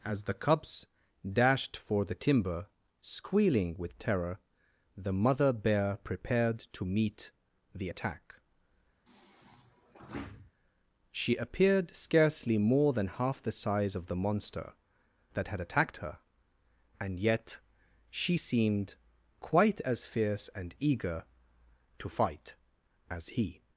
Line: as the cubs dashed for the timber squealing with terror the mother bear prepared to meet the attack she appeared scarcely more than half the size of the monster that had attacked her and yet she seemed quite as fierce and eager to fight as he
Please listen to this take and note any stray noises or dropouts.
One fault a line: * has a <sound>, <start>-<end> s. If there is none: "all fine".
* has a sigh, 9.1-10.5 s